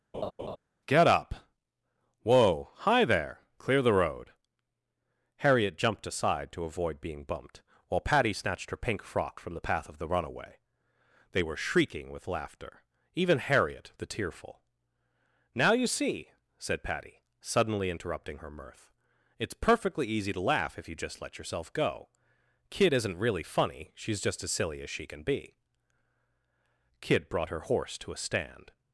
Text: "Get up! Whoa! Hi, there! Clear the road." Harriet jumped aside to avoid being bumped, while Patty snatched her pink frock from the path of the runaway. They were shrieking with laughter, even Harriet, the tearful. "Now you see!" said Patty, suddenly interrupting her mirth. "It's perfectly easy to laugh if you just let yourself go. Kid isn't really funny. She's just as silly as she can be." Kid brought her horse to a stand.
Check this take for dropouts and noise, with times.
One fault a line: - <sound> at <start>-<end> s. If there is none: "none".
- laugh at 0.1-0.6 s